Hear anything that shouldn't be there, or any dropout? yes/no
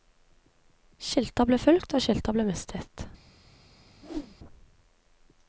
yes